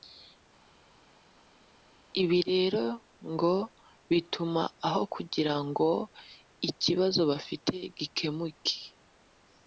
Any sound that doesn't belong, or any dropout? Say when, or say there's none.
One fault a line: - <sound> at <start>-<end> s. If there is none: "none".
none